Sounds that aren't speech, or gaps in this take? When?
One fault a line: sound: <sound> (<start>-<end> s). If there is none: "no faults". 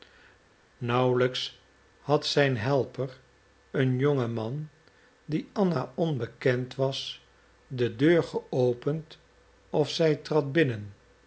no faults